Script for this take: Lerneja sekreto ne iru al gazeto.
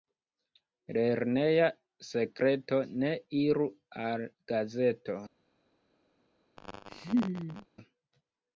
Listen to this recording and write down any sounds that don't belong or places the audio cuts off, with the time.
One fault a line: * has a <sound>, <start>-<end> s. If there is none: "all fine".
* has a laugh, 6.6-7.7 s